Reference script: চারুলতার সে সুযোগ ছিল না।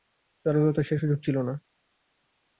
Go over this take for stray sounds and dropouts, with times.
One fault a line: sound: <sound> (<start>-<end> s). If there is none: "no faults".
no faults